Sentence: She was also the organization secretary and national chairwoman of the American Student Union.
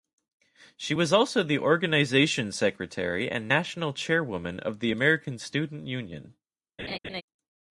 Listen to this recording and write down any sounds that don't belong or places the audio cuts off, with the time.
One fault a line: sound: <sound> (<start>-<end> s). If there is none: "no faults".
sound: laugh (6.8-7.2 s)